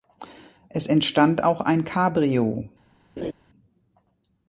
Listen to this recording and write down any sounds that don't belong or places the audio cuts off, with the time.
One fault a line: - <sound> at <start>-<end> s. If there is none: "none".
- laugh at 3.2-3.3 s